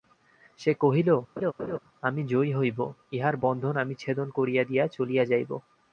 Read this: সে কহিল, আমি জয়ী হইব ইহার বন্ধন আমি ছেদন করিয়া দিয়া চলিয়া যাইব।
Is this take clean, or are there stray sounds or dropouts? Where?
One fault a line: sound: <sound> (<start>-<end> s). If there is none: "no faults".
sound: laugh (1.4-1.8 s)